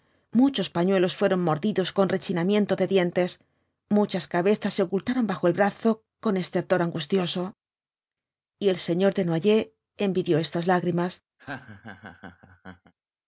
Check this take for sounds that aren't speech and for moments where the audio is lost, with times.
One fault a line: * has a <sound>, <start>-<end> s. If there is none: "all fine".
* has a laugh, 11.4-12.9 s